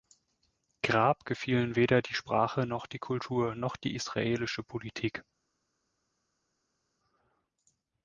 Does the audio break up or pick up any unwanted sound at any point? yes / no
no